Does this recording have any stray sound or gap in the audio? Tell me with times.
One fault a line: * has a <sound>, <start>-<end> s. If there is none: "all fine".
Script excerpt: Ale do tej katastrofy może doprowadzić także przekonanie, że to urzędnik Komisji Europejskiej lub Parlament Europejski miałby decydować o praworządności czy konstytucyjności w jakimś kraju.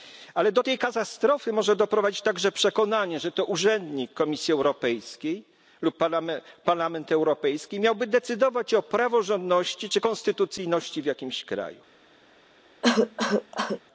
* has a cough, 12.8-13.8 s